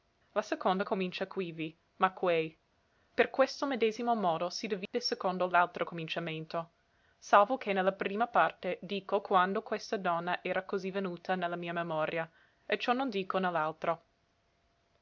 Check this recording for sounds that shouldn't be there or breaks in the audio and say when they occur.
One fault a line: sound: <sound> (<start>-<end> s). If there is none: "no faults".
sound: dropout (4.9-4.9 s)